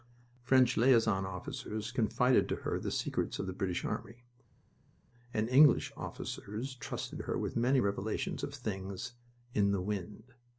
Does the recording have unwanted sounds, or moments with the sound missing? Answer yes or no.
no